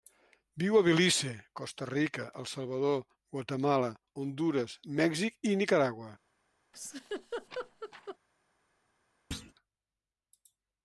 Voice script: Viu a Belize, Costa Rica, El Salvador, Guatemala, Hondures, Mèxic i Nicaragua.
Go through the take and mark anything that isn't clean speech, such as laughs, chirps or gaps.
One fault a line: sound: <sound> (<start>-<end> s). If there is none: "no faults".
sound: laugh (6.7-8.2 s)
sound: thud (9.3-9.5 s)